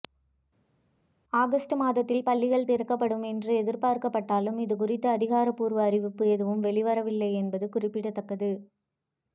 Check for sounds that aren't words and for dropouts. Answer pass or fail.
pass